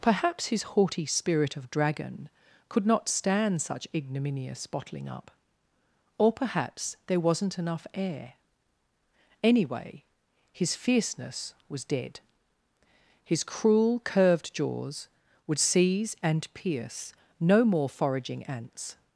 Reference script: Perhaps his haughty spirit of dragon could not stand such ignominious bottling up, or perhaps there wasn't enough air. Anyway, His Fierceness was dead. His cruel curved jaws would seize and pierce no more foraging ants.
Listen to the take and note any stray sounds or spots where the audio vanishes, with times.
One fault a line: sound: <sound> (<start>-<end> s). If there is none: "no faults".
no faults